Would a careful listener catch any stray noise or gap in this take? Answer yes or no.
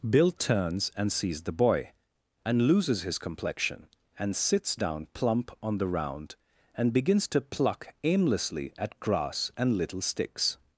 no